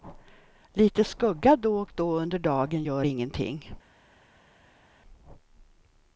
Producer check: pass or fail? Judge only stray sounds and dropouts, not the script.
pass